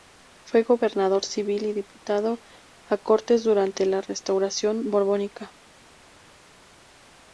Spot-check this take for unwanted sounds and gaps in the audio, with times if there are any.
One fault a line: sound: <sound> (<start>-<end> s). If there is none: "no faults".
no faults